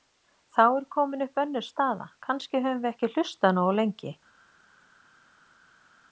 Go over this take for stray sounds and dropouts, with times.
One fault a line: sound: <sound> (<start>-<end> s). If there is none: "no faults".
no faults